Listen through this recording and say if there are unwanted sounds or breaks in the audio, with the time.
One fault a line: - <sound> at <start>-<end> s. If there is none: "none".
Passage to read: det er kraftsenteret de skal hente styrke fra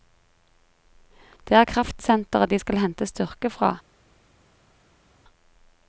none